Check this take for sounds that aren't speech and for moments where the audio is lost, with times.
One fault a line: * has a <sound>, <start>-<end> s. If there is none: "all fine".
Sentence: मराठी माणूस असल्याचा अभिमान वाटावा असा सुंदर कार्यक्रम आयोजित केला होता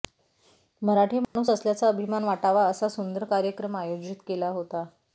* has a dropout, 1.2-1.4 s